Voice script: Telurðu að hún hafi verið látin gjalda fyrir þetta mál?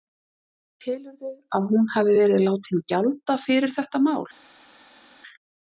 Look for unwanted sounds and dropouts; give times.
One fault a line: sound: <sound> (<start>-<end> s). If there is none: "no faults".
no faults